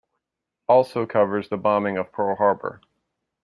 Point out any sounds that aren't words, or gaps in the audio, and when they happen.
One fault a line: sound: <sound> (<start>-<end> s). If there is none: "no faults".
no faults